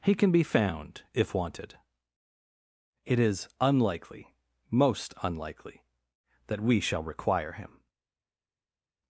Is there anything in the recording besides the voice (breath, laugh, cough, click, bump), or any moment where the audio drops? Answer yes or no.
no